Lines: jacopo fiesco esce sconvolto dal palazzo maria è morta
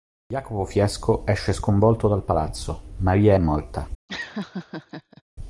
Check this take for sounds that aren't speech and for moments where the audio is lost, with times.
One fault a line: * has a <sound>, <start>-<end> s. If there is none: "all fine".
* has a laugh, 4.1-5.2 s